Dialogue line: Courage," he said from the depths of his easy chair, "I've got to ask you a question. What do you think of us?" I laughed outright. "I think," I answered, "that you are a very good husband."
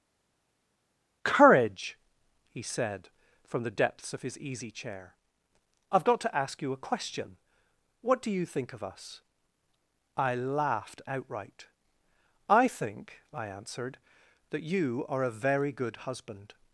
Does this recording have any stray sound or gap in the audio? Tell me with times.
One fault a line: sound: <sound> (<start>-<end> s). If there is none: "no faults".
no faults